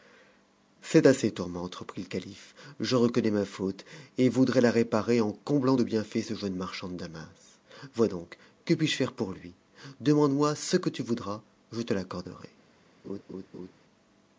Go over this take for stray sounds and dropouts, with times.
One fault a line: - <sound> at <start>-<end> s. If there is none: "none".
- laugh at 13.0-13.7 s